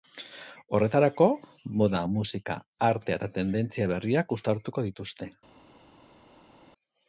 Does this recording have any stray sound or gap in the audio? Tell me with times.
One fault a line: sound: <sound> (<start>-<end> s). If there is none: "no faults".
no faults